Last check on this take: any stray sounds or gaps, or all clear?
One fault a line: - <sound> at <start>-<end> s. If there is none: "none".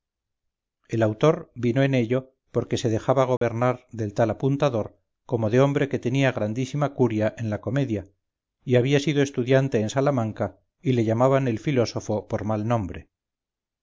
- dropout at 3.4-3.4 s